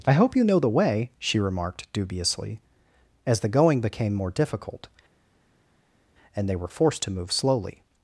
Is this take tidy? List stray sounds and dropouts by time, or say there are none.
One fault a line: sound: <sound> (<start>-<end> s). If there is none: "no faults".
no faults